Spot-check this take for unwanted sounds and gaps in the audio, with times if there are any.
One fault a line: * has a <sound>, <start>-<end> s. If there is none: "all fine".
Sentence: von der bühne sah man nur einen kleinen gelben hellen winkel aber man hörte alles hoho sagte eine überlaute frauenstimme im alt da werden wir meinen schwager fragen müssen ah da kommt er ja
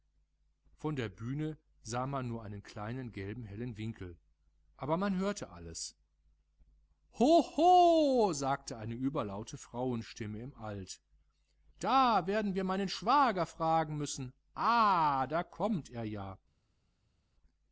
all fine